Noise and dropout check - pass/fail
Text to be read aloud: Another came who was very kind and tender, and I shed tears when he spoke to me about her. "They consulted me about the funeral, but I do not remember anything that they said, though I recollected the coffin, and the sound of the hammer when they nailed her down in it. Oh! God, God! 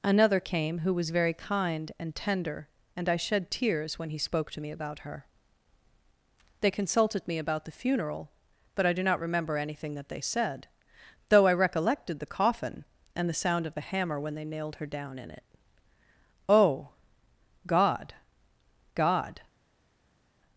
pass